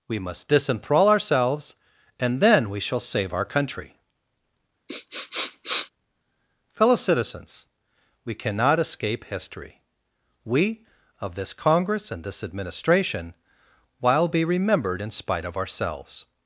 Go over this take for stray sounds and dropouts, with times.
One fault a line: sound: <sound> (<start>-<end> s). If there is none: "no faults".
sound: sniff (4.9-5.9 s)